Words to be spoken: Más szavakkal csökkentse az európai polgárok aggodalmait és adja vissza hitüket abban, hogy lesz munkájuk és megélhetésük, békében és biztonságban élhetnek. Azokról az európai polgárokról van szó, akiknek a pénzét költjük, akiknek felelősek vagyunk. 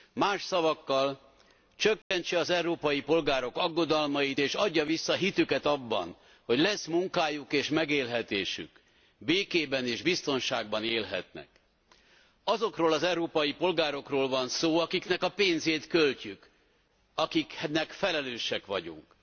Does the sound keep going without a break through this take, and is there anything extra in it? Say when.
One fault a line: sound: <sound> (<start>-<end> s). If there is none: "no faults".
sound: dropout (2.0-2.1 s)